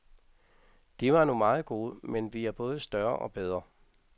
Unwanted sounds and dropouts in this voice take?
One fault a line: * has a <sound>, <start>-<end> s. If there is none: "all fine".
all fine